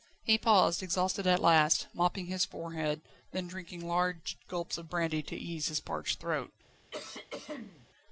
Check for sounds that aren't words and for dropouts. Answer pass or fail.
fail